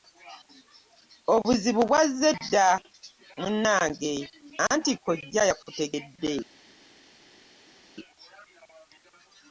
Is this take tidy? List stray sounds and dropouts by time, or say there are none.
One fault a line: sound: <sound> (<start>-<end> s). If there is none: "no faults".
no faults